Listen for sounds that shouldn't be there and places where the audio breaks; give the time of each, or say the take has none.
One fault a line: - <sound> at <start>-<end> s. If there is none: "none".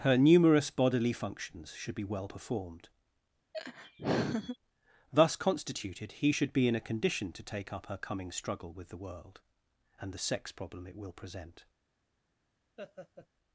- laugh at 3.5-4.6 s
- laugh at 12.8-13.3 s